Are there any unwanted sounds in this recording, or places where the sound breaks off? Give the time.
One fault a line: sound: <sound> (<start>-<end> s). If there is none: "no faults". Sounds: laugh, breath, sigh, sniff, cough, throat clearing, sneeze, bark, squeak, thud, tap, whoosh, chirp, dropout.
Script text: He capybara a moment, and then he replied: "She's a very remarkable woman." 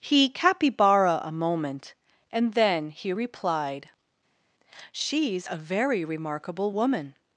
no faults